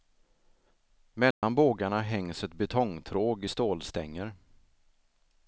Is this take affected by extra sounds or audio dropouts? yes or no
yes